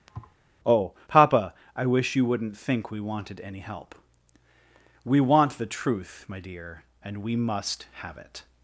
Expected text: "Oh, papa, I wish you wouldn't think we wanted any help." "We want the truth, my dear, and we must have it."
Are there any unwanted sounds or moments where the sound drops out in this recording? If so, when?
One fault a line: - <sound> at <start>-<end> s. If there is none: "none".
- thud at 0.1-0.4 s